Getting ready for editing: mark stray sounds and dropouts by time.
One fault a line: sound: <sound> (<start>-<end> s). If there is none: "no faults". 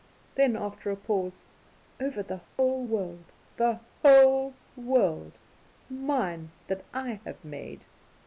sound: dropout (2.5-2.6 s)